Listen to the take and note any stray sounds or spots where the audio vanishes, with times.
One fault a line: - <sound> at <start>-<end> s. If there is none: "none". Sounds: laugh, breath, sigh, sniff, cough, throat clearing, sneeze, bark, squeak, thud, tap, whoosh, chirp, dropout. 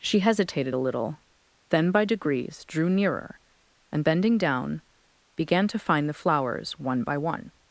none